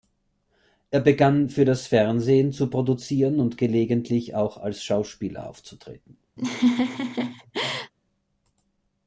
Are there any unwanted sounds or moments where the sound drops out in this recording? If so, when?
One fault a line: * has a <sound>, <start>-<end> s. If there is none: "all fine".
* has a laugh, 6.4-7.9 s